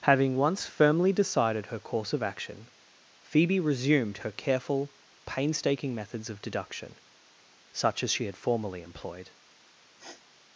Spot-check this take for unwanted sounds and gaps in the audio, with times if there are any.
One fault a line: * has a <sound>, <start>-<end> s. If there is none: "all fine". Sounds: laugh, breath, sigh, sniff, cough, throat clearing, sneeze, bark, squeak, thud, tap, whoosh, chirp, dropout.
* has a sniff, 10.0-10.2 s